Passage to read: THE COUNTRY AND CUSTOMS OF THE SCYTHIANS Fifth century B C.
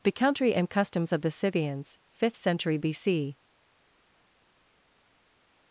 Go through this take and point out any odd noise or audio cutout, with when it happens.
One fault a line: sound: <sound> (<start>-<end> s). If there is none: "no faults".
no faults